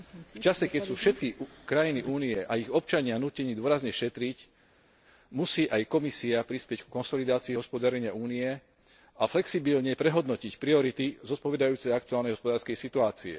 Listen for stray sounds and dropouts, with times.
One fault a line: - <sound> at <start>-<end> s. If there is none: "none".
none